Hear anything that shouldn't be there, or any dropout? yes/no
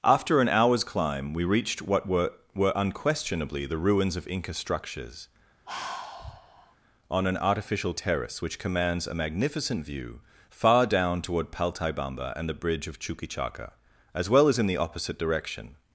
yes